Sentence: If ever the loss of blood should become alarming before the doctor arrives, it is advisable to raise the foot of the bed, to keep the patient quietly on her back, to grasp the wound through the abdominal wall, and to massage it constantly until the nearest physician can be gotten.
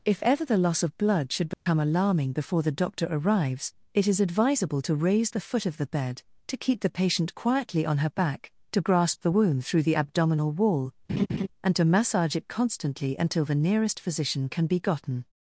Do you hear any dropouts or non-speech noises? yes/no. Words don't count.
yes